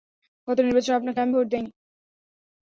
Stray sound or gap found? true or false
false